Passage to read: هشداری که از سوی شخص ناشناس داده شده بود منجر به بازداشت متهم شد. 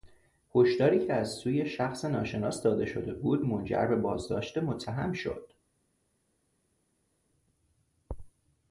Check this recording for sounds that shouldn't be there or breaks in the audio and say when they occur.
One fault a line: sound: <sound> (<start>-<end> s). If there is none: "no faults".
no faults